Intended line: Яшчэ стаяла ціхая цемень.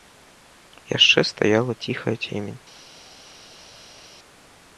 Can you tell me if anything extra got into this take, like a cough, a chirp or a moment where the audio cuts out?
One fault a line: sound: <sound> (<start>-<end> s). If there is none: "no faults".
no faults